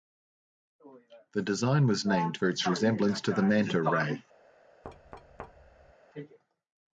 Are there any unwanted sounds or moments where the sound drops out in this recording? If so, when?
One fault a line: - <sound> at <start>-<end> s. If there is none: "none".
- thud at 4.8-5.9 s